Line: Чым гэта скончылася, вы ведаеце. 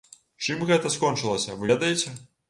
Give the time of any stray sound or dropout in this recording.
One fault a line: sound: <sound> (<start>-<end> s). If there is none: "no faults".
no faults